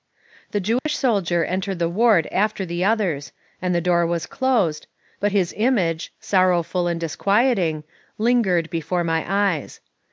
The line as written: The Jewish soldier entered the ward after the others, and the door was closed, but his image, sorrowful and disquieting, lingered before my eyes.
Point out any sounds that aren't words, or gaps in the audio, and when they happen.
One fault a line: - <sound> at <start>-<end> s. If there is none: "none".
- dropout at 0.8-0.9 s